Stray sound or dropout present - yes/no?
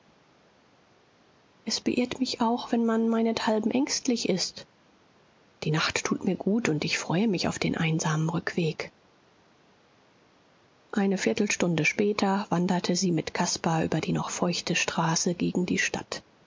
no